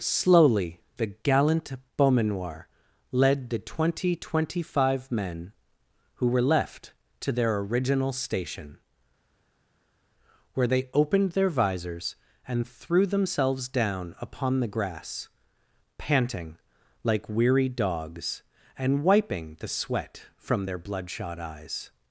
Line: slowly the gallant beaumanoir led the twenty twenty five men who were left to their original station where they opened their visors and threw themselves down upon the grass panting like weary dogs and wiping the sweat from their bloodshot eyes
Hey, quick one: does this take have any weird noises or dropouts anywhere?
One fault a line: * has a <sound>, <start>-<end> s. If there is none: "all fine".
all fine